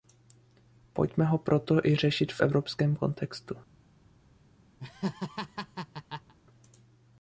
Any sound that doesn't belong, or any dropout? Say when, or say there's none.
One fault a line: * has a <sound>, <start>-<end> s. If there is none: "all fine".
* has a laugh, 4.8-6.3 s